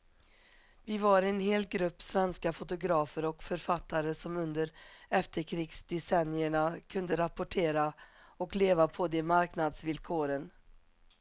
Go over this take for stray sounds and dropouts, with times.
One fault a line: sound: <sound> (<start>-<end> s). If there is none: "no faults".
no faults